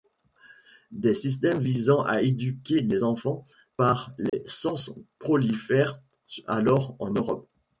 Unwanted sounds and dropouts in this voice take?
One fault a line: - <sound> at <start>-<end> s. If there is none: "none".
- dropout at 4.3-4.3 s